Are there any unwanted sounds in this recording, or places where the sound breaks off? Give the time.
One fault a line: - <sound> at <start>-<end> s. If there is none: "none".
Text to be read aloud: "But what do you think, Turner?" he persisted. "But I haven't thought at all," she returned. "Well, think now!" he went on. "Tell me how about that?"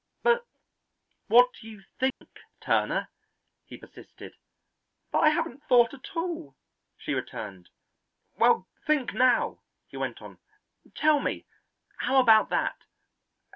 - dropout at 2.1-2.2 s